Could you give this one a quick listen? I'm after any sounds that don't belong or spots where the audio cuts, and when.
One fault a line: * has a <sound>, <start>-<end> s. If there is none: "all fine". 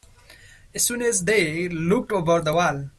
all fine